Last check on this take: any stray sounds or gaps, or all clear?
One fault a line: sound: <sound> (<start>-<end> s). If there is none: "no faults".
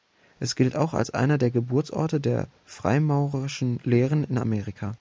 no faults